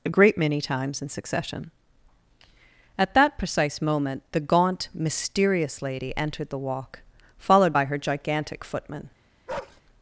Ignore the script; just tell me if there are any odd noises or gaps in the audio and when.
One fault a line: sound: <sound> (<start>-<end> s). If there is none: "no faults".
sound: bark (9.5-9.8 s)